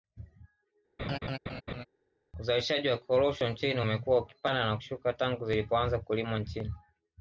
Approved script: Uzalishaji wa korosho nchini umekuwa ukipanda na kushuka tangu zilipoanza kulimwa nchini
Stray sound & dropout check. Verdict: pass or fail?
fail